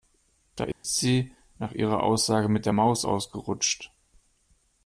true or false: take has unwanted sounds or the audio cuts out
true